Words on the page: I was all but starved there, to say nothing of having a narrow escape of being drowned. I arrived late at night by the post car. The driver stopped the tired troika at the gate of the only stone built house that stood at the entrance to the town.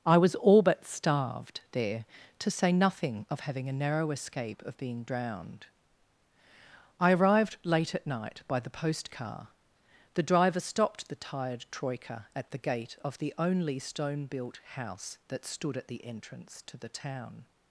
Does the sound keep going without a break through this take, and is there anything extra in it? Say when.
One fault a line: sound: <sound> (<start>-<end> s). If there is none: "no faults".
no faults